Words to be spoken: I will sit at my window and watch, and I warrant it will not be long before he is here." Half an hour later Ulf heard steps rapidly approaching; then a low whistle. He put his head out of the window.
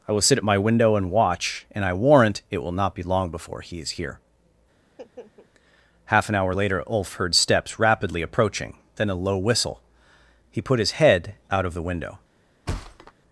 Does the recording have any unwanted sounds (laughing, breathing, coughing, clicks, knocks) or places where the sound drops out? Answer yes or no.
yes